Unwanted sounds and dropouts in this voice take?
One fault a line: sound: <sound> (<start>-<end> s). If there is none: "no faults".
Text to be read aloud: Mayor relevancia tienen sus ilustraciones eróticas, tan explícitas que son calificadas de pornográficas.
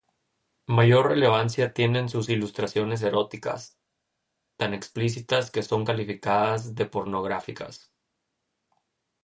no faults